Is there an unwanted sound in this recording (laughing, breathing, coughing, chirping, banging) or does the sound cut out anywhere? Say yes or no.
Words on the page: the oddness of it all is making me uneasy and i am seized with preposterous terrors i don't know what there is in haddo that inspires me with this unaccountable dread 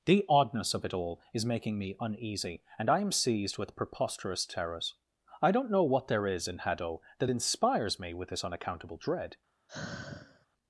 yes